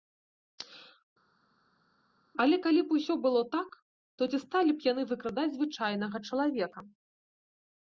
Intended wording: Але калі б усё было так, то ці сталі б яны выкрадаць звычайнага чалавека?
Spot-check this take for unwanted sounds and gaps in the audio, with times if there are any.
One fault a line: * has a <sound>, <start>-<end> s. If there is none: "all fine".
all fine